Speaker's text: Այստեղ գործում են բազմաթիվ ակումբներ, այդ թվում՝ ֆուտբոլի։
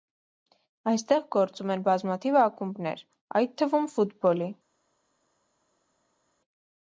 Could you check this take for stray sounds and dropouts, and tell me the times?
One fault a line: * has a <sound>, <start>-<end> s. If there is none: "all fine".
all fine